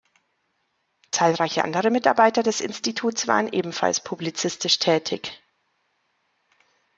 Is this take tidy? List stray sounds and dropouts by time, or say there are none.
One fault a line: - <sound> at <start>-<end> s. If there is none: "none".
none